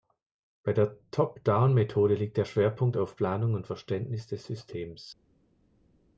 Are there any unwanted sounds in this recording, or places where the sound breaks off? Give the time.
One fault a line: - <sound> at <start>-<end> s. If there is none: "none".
none